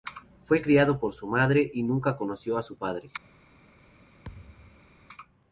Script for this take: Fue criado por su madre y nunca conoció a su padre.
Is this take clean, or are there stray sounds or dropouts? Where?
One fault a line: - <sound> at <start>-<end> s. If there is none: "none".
- thud at 4.2-4.9 s